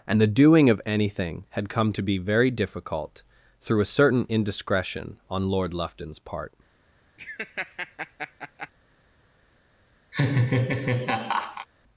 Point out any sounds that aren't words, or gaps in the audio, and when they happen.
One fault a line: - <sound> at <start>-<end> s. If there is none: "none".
- laugh at 7.2-8.7 s
- laugh at 10.1-11.7 s